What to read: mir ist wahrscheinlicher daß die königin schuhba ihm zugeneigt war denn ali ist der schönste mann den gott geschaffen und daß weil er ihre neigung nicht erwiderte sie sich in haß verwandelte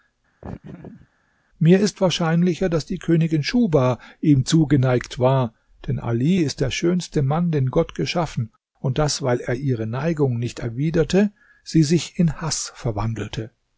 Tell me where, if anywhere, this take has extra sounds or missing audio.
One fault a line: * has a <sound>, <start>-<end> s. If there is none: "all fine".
* has a laugh, 0.4-1.1 s